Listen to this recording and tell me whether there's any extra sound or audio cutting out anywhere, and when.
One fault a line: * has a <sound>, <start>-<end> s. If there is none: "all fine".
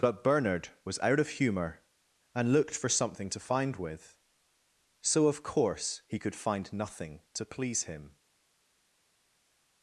all fine